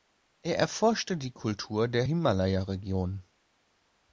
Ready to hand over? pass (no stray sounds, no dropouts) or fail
pass